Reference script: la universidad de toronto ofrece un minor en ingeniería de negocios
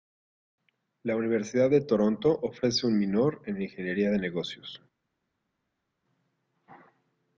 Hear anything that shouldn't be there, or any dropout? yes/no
no